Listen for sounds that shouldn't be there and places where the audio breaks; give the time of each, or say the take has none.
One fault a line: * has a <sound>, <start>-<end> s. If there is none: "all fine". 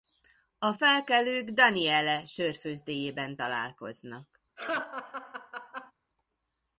* has a laugh, 4.6-5.9 s